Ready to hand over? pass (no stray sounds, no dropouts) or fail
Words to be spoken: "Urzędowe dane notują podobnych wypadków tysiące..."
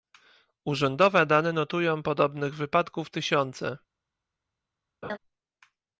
fail